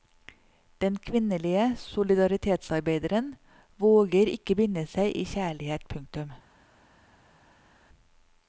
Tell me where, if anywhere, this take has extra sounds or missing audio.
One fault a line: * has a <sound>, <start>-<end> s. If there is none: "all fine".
all fine